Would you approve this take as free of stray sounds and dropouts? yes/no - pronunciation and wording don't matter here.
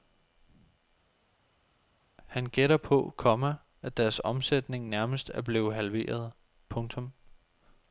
yes